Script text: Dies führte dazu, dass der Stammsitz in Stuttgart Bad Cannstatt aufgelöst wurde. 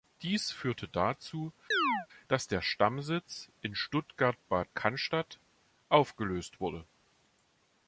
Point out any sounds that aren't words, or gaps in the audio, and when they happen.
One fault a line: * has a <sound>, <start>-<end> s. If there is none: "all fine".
* has a chirp, 1.7-2.1 s